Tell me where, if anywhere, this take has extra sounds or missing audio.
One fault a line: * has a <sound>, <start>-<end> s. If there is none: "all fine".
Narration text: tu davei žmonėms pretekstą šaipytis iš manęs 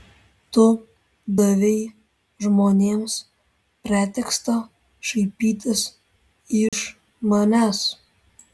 * has a dropout, 6.7-6.7 s